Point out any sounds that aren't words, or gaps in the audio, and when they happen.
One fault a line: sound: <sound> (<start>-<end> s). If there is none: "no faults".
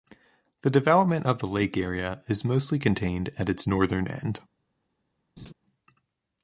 sound: laugh (5.4-5.5 s)